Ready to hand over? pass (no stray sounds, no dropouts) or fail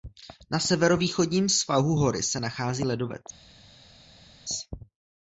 pass